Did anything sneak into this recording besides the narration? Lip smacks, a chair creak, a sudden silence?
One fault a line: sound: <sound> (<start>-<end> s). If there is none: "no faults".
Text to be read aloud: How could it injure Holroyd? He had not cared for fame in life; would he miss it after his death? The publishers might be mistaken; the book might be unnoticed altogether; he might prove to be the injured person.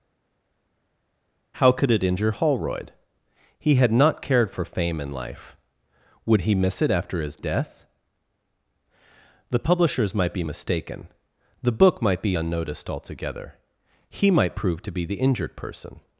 no faults